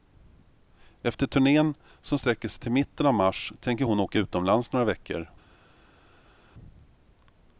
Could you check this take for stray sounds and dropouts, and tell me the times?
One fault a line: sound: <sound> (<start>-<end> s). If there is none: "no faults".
no faults